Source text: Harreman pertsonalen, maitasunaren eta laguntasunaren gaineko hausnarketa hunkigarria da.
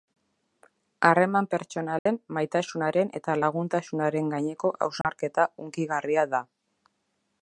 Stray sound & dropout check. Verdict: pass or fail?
fail